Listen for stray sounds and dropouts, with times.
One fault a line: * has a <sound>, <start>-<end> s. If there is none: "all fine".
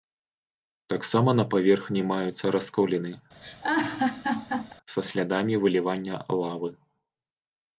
* has a laugh, 3.4-4.7 s